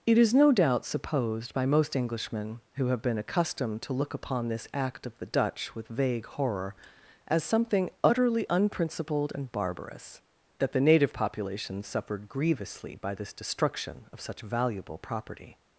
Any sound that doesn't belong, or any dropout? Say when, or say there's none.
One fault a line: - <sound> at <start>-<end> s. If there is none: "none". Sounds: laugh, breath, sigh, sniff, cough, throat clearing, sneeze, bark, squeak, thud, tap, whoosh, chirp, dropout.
none